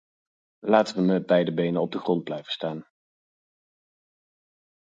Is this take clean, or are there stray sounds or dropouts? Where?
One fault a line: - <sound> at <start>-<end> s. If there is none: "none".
none